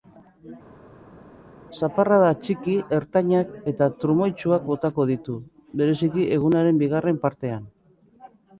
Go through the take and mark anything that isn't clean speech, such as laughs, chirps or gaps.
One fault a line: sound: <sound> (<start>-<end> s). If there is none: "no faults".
no faults